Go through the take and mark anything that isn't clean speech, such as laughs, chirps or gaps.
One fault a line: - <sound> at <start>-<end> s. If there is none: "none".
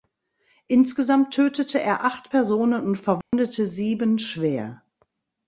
- dropout at 3.2-3.3 s